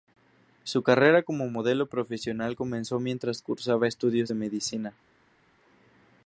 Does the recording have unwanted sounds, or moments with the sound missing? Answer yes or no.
no